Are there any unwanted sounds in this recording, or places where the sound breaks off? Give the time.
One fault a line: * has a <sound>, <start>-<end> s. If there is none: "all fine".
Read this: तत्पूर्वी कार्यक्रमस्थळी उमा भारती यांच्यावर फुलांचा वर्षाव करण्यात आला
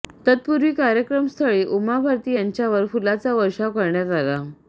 all fine